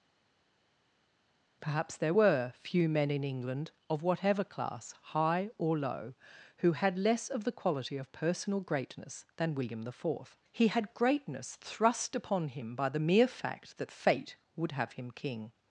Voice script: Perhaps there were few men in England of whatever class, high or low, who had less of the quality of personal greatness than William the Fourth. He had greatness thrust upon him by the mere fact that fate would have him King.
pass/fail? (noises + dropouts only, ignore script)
pass